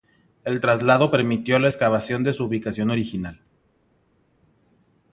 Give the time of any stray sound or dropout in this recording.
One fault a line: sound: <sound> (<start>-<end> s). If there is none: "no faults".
no faults